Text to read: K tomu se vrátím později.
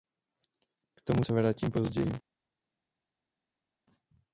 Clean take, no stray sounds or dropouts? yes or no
yes